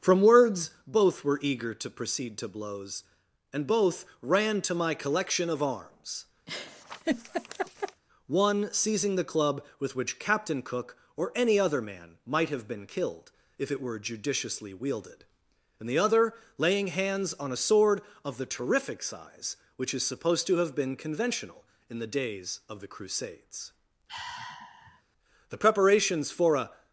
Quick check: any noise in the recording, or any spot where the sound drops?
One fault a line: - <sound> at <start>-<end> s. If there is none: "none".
- laugh at 6.5-8.0 s
- sigh at 24.1-25.0 s